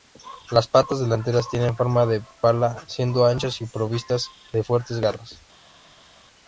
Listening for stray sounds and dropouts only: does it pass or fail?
pass